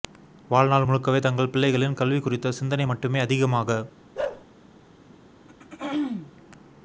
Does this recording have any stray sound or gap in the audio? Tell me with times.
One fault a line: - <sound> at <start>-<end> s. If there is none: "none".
- bark at 4.1-4.4 s
- throat clearing at 5.5-6.3 s